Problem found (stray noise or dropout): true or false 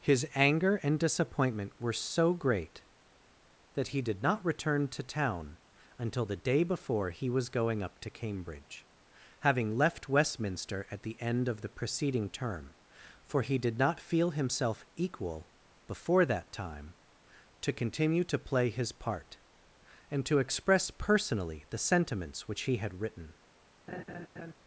true